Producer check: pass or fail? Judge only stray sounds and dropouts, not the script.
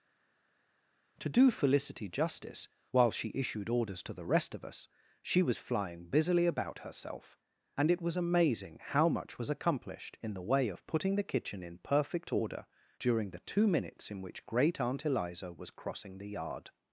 pass